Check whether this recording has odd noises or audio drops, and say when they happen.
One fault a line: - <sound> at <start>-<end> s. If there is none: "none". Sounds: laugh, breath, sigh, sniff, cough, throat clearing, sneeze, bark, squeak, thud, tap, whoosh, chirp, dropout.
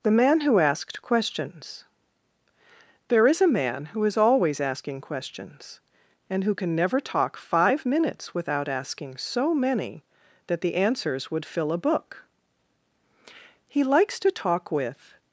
none